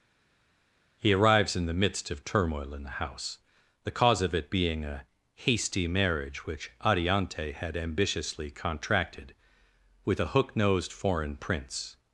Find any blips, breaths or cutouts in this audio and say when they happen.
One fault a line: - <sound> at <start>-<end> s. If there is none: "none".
none